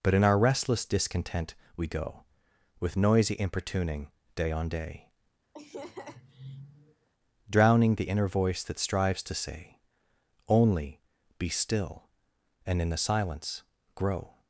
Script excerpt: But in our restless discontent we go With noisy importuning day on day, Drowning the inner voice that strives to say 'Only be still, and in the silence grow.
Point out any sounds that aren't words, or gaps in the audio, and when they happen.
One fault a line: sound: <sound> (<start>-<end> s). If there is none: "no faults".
sound: laugh (5.5-7.1 s)